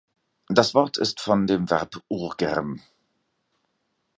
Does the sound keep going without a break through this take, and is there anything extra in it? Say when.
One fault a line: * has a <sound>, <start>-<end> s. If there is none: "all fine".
all fine